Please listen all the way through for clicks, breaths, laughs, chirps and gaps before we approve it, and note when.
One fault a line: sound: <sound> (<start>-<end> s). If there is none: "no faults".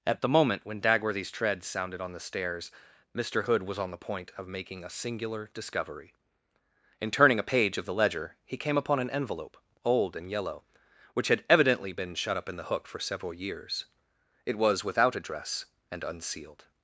no faults